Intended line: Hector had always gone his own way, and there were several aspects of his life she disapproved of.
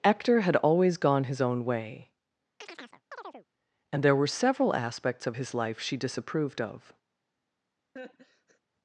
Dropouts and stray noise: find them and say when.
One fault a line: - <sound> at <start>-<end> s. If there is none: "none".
- chirp at 2.6-3.5 s
- laugh at 8.0-8.6 s